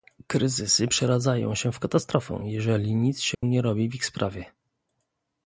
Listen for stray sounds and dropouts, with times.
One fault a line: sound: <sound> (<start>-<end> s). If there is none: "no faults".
sound: dropout (3.3-3.4 s)